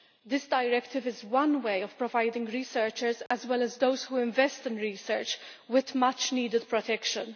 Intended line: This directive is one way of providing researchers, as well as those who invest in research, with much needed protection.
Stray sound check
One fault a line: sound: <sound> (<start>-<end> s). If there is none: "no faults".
sound: dropout (3.3-3.3 s)